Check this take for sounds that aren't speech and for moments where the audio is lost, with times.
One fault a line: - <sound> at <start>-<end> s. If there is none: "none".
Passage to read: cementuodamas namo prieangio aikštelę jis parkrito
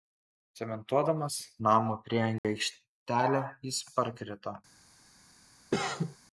- dropout at 2.4-2.4 s
- cough at 5.7-6.2 s